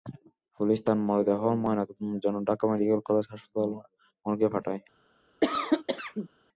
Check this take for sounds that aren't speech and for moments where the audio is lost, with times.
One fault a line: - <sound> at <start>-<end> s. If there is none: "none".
- cough at 5.4-6.3 s